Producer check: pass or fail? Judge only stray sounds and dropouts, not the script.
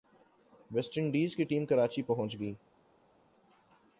pass